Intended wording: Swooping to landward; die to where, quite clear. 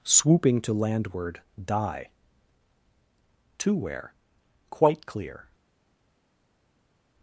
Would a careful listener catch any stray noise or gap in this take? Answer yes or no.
no